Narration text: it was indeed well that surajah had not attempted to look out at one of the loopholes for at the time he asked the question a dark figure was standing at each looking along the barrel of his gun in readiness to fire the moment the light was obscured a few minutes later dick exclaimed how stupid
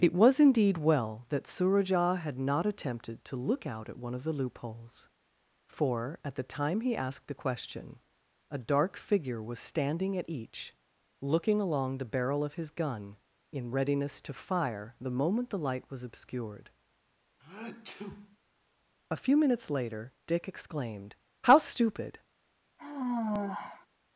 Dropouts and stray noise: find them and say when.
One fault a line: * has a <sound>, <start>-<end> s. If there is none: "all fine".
* has a sneeze, 17.4-18.4 s
* has a sigh, 22.8-23.9 s